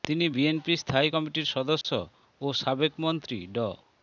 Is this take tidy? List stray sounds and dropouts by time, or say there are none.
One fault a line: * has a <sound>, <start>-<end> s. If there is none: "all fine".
* has a dropout, 1.8-1.8 s